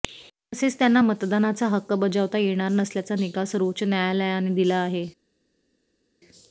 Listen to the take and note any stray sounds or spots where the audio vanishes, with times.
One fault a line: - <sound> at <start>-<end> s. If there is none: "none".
none